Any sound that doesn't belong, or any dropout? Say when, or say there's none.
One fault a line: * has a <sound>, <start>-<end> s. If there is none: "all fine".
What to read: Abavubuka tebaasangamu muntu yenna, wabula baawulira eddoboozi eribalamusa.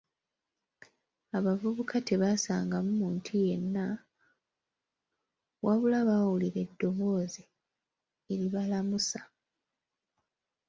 all fine